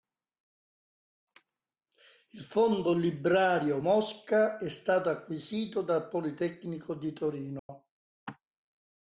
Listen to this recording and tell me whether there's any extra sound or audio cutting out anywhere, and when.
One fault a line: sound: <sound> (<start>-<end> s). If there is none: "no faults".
sound: dropout (7.6-7.7 s)